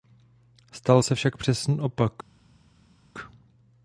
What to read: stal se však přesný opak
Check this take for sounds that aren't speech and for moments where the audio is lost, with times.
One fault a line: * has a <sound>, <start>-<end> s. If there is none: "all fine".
all fine